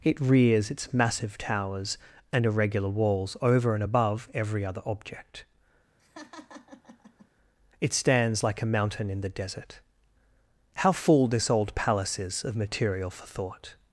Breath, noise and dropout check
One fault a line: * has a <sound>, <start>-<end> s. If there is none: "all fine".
* has a laugh, 6.0-7.3 s